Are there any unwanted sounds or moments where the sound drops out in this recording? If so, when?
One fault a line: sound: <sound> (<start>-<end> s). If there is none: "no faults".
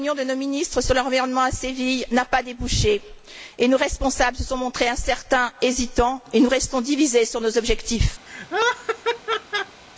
sound: laugh (8.3-9.8 s)